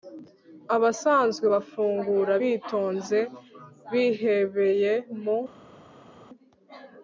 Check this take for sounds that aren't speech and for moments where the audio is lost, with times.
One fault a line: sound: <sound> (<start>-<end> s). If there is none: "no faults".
no faults